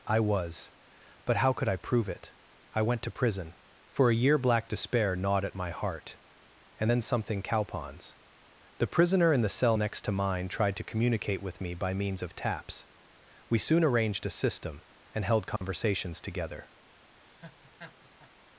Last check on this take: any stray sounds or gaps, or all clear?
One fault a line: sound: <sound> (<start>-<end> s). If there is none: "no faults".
sound: dropout (15.6-15.6 s)
sound: laugh (17.2-18.3 s)